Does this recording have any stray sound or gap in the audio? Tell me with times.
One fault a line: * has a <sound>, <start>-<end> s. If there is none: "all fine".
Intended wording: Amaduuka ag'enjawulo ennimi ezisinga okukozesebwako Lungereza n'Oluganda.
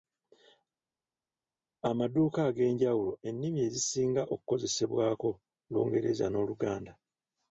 all fine